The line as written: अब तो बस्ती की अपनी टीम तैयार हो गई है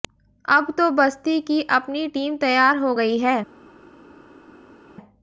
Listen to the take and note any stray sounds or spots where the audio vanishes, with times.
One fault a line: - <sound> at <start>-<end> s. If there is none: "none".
none